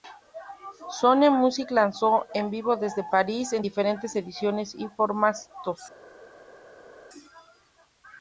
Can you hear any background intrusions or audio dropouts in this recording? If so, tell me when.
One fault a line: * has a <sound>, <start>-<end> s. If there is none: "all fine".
all fine